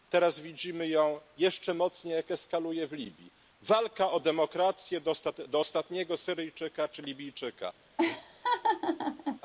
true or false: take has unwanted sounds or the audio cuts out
true